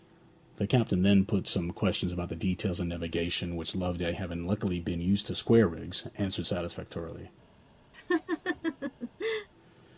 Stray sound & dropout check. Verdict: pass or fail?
fail